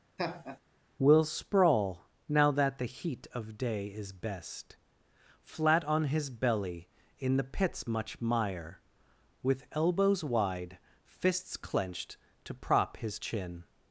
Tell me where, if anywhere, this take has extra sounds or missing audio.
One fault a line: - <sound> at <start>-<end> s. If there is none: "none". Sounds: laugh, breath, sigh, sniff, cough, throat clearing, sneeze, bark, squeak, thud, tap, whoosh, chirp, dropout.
- laugh at 0.2-0.6 s